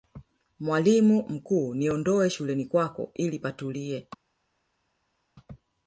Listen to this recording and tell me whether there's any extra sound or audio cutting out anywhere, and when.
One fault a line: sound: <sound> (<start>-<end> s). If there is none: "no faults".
no faults